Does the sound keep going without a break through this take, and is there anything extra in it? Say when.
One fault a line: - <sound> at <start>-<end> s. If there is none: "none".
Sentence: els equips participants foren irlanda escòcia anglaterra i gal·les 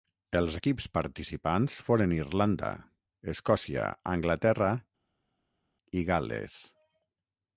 none